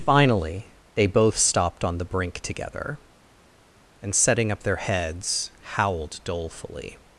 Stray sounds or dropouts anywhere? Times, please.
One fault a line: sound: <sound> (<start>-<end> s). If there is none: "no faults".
no faults